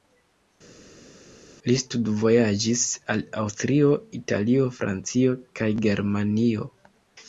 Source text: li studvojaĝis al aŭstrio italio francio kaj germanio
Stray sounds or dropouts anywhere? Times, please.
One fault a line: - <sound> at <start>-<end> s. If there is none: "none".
none